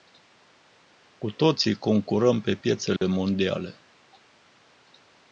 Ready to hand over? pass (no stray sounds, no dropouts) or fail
fail